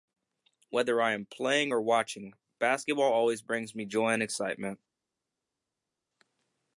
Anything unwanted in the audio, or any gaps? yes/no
no